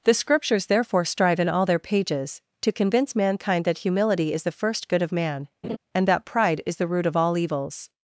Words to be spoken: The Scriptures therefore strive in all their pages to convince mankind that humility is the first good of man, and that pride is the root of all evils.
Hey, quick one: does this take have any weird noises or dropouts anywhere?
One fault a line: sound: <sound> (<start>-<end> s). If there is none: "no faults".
sound: laugh (5.6-5.8 s)